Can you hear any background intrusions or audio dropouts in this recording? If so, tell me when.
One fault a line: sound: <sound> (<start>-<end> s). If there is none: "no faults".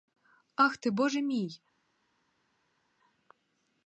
no faults